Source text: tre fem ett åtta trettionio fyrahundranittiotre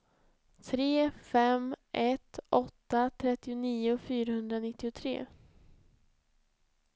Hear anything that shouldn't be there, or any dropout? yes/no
no